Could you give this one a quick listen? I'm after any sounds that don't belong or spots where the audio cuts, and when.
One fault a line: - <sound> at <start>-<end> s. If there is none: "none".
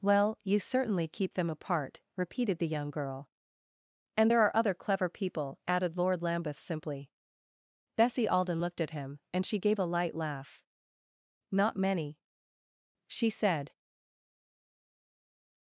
none